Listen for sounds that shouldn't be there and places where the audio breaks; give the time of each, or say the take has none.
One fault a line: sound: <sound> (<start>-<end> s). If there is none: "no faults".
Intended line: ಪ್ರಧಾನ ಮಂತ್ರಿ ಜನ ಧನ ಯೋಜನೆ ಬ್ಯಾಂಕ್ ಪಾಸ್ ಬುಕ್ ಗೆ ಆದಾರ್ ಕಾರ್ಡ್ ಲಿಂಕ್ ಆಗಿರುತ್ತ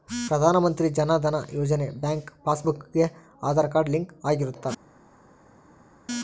no faults